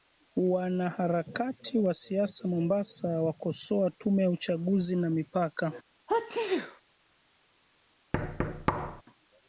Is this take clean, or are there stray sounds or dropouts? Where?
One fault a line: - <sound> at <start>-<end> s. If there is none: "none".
- sneeze at 6.1-6.8 s
- thud at 8.1-9.0 s